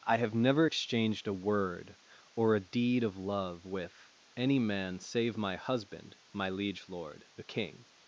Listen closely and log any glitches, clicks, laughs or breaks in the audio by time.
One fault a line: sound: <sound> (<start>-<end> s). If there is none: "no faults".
no faults